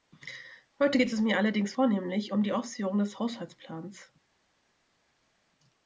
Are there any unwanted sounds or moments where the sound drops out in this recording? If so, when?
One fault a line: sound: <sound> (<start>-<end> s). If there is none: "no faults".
no faults